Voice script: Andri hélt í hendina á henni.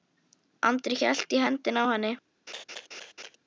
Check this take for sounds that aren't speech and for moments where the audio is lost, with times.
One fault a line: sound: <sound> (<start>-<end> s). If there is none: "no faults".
sound: laugh (2.5-3.4 s)